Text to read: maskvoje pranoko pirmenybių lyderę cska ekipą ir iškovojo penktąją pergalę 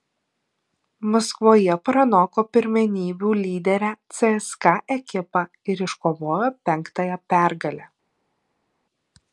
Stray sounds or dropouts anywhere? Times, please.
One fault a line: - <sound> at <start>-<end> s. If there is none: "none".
none